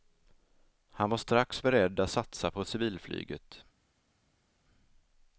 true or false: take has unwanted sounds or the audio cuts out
false